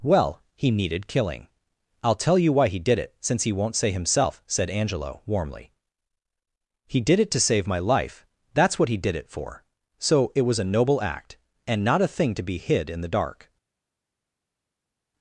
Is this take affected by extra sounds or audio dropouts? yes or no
no